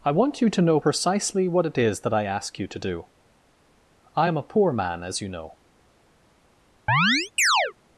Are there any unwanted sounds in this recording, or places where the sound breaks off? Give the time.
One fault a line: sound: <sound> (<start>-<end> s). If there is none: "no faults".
sound: chirp (6.9-7.7 s)